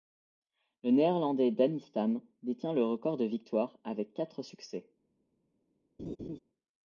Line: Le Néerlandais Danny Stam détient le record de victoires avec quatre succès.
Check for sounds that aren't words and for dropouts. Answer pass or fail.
fail